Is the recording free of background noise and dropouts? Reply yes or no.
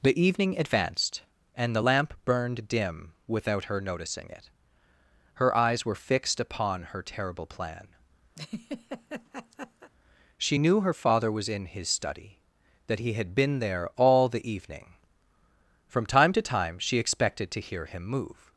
no